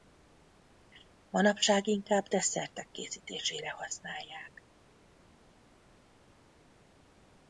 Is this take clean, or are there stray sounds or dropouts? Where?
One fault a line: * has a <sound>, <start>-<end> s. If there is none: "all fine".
all fine